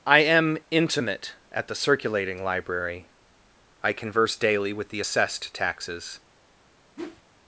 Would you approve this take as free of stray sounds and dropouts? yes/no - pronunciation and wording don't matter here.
no